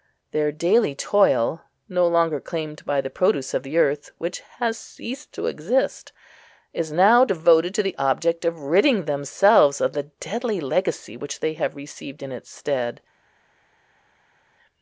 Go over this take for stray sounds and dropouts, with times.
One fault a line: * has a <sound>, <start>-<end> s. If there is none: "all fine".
all fine